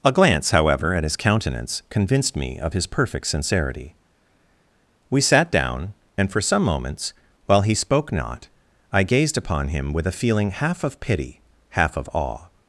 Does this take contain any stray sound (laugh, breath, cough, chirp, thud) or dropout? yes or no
no